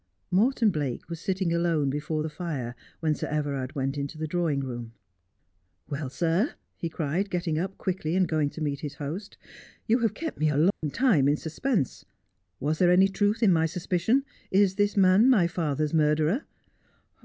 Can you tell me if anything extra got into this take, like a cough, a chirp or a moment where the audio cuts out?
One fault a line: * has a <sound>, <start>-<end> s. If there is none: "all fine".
* has a dropout, 10.7-10.8 s